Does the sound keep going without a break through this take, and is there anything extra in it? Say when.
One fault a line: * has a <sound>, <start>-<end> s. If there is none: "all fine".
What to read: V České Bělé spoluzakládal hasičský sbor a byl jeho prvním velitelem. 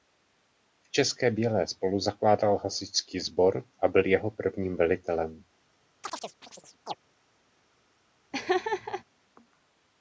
* has a chirp, 6.0-7.0 s
* has a laugh, 8.3-9.0 s